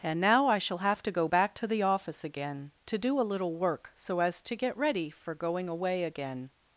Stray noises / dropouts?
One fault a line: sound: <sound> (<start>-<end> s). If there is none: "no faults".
no faults